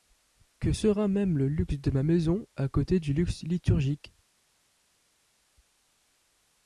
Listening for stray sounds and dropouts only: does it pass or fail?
pass